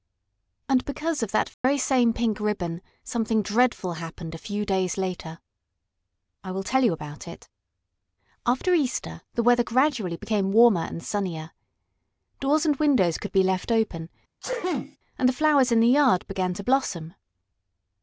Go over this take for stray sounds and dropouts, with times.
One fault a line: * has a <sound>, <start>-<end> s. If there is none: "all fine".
* has a dropout, 1.5-1.6 s
* has a sneeze, 14.4-15.0 s